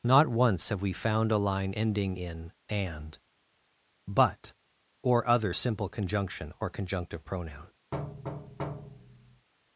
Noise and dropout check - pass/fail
fail